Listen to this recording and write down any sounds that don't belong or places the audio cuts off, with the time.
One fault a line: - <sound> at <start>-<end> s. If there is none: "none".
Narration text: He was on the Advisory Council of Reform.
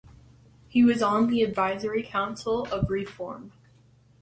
none